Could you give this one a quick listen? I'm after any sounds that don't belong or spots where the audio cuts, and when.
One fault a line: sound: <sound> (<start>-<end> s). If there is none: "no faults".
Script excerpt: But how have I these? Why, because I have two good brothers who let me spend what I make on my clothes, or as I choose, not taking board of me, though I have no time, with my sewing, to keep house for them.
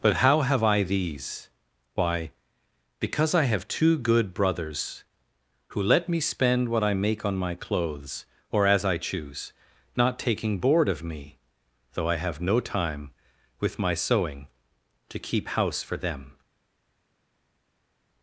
no faults